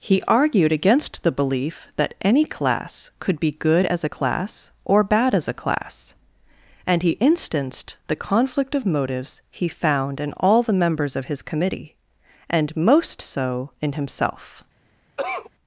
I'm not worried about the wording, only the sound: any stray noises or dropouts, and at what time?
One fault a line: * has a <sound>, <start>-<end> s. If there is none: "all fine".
* has a cough, 15.2-15.5 s